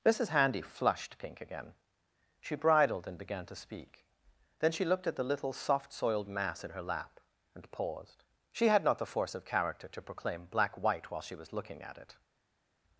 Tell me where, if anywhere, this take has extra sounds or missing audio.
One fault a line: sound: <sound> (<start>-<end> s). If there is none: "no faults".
no faults